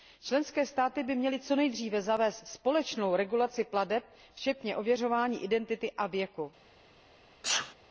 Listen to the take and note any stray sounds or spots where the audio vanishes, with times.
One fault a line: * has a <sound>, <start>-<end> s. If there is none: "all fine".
* has a sneeze, 7.4-7.7 s